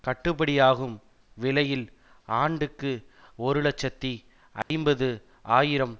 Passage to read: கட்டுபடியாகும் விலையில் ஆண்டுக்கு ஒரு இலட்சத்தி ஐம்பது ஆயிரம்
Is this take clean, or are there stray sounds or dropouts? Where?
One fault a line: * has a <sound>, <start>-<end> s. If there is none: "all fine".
* has a dropout, 4.6-4.7 s